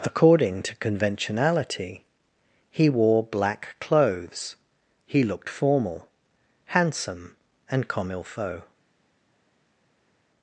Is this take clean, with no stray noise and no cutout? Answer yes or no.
yes